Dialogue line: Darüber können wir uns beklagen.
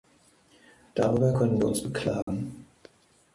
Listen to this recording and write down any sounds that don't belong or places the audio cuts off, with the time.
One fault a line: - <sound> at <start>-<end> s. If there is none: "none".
- dropout at 2.2-2.3 s